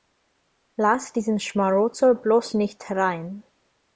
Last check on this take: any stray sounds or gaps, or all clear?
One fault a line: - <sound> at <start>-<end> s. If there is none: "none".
none